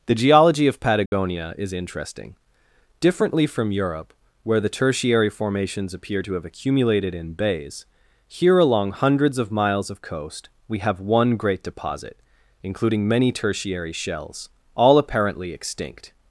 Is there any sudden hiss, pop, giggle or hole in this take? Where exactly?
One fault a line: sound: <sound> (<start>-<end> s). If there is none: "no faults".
sound: dropout (1.1-1.1 s)